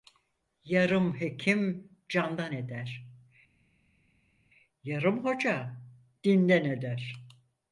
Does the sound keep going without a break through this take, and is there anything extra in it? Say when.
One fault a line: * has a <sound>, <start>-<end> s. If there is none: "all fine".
all fine